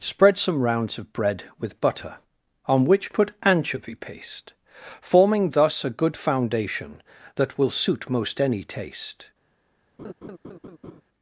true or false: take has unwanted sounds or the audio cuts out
true